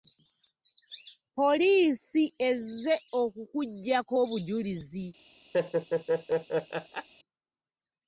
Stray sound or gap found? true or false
true